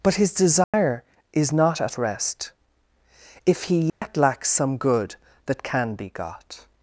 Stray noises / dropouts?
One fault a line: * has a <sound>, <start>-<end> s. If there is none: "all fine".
* has a dropout, 0.6-0.7 s
* has a dropout, 3.9-4.0 s